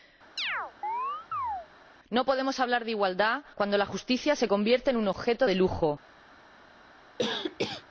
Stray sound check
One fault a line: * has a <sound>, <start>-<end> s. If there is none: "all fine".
* has a chirp, 0.4-1.7 s
* has a cough, 7.2-7.8 s